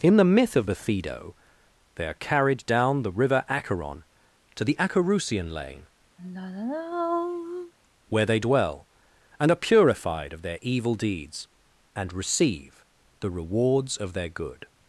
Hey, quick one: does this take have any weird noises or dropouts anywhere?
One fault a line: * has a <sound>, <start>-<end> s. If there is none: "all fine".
* has a sigh, 6.2-7.7 s